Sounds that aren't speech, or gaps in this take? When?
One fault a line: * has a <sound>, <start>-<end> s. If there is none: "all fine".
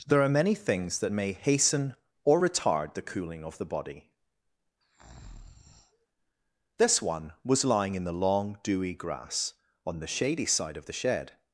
* has a breath, 4.8-6.1 s